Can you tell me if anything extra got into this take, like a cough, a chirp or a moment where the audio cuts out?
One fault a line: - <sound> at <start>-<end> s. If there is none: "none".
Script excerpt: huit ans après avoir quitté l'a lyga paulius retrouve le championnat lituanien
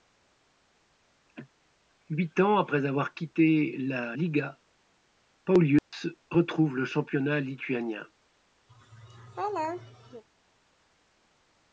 - dropout at 5.8-5.9 s
- laugh at 8.7-10.2 s